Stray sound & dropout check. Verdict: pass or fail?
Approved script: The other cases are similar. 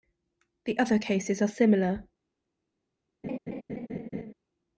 fail